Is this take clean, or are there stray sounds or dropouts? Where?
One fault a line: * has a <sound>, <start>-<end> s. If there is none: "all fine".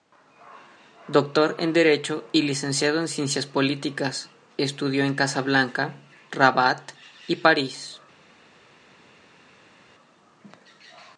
all fine